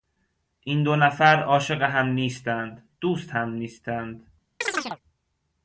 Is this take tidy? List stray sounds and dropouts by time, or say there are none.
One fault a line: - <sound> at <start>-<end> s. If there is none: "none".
- chirp at 4.6-5.0 s